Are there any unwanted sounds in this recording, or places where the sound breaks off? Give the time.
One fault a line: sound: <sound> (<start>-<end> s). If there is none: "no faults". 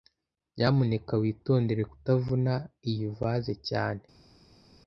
no faults